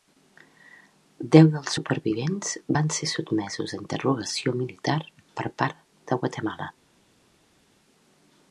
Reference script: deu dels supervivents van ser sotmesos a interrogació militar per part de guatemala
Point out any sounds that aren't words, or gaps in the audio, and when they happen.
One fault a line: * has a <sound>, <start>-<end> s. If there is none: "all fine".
all fine